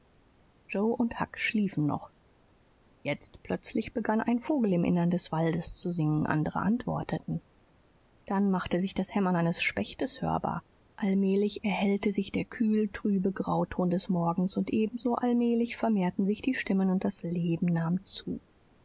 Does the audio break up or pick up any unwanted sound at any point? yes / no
no